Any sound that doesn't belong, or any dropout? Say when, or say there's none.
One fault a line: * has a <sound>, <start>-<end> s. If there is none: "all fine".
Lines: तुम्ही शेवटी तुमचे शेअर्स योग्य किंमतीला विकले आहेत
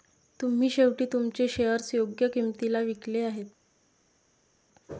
all fine